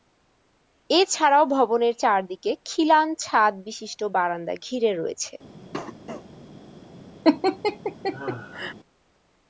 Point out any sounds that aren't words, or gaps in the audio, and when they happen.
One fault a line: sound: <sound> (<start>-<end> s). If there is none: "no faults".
sound: cough (5.7-6.3 s)
sound: laugh (7.2-8.7 s)